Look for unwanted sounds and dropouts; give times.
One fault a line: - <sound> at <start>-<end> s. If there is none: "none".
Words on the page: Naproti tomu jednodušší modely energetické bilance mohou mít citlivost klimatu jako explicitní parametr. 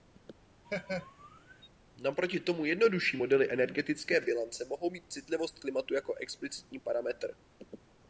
- laugh at 0.6-1.7 s